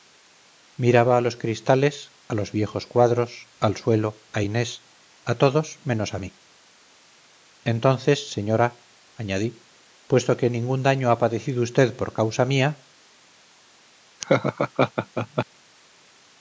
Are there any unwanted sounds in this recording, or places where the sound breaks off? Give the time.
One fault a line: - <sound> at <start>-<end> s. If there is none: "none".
- laugh at 14.2-15.5 s